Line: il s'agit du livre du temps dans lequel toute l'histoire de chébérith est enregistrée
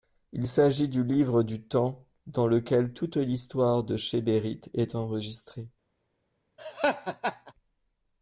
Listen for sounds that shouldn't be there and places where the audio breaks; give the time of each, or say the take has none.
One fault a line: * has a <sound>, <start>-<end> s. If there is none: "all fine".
* has a laugh, 6.6-7.5 s